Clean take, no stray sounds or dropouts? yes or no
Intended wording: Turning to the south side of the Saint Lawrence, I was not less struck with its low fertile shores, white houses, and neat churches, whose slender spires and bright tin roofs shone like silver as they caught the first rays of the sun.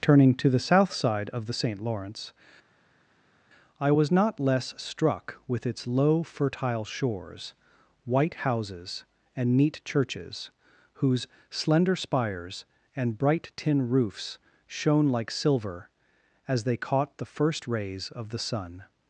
yes